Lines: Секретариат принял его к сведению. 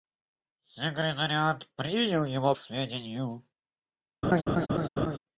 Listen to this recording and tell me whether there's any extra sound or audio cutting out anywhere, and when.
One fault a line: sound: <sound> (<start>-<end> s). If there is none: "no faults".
sound: laugh (4.2-5.2 s)